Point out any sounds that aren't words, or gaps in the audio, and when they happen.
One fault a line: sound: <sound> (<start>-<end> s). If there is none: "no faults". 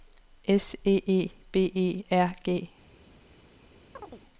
sound: chirp (4.0-4.2 s)